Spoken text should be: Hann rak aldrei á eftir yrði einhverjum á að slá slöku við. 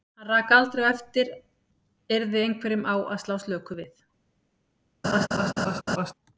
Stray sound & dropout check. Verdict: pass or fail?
fail